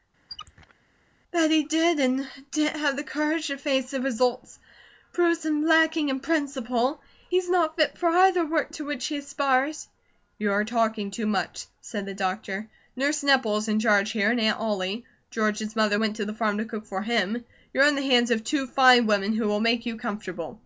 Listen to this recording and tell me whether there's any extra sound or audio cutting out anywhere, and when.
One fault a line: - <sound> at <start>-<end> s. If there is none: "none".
- squeak at 0.3-0.7 s